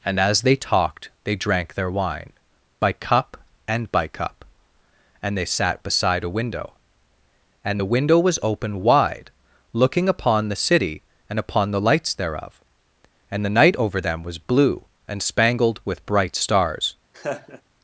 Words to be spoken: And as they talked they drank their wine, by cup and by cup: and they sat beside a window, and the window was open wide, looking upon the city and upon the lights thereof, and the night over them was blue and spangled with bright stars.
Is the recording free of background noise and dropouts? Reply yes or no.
no